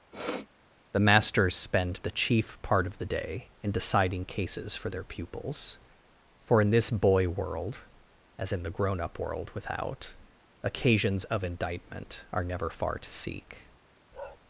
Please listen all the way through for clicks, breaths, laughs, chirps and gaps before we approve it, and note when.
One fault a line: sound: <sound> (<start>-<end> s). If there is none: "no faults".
sound: sniff (0.1-0.5 s)
sound: bark (14.1-14.4 s)